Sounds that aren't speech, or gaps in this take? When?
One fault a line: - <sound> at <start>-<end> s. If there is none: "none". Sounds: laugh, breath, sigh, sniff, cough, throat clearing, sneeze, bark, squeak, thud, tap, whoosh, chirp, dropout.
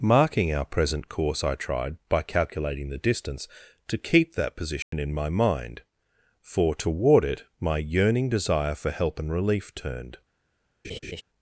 - dropout at 4.8-4.9 s
- laugh at 10.8-11.2 s